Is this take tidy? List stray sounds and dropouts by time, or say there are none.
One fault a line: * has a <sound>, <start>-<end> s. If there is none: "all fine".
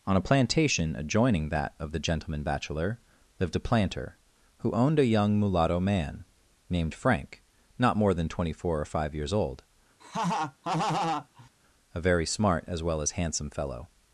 * has a laugh, 10.0-11.5 s